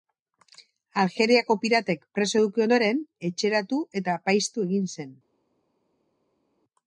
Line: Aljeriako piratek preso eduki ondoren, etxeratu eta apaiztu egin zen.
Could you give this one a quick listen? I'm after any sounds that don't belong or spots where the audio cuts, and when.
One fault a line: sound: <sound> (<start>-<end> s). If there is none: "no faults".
no faults